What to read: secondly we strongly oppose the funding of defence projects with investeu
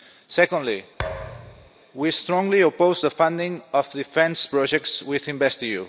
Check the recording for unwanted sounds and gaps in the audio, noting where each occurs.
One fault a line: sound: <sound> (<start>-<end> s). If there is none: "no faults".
sound: thud (1.0-1.7 s)